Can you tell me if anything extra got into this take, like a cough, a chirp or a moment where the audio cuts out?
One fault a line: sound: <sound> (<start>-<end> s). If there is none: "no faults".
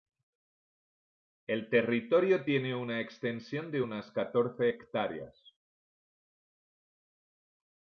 no faults